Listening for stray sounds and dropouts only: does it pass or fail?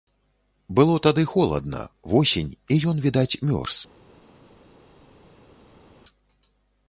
pass